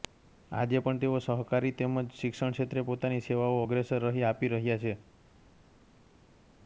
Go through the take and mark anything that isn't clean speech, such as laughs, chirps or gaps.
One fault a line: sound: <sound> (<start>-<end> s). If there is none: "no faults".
no faults